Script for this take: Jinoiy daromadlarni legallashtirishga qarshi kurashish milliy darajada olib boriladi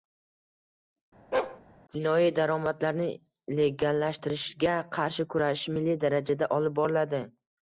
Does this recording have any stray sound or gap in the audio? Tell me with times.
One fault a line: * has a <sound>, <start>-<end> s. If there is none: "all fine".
* has a bark, 1.3-1.6 s